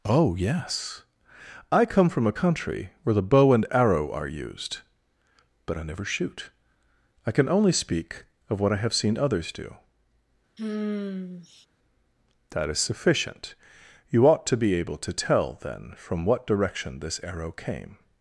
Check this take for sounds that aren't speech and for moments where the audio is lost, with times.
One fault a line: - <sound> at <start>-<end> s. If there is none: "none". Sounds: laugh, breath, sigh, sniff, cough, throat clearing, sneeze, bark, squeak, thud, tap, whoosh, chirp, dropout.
- sigh at 10.6-11.7 s